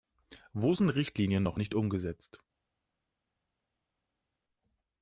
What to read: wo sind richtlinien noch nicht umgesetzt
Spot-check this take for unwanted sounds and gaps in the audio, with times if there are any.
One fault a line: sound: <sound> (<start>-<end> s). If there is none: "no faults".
no faults